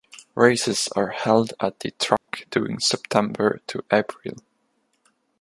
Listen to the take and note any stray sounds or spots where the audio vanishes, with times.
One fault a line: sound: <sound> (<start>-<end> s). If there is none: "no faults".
sound: dropout (2.2-2.3 s)